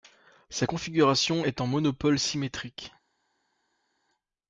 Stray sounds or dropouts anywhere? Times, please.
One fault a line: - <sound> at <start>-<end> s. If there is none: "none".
none